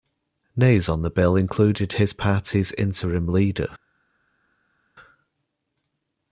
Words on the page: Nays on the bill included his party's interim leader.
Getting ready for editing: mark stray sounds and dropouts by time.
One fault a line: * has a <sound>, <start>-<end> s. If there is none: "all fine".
all fine